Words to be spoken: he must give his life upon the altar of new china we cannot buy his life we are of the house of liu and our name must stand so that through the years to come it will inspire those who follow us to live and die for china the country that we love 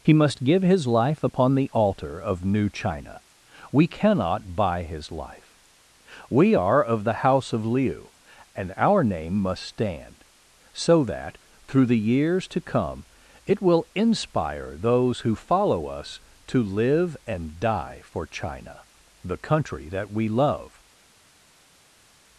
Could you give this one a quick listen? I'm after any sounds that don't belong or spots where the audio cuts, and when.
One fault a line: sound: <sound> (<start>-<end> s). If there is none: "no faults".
no faults